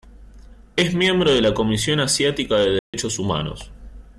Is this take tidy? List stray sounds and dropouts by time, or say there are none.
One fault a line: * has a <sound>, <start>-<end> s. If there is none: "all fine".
* has a dropout, 2.8-2.9 s